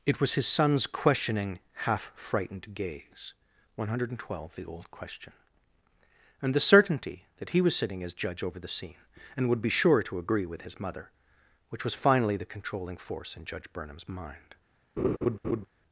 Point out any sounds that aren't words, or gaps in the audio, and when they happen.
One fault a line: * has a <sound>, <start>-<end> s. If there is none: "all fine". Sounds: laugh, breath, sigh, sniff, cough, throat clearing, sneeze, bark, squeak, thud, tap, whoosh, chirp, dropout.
* has a laugh, 15.0-15.7 s